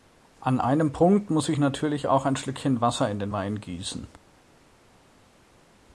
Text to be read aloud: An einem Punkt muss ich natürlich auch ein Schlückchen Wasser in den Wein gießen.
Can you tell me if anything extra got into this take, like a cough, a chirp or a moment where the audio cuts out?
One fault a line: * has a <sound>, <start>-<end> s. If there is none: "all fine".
all fine